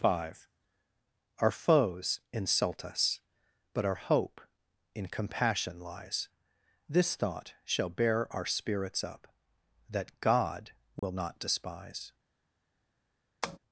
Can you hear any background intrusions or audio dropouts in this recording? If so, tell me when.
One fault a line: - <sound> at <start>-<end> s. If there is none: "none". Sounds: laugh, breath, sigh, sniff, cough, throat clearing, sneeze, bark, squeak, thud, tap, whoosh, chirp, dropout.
- dropout at 11.0-11.0 s
- tap at 13.4-13.6 s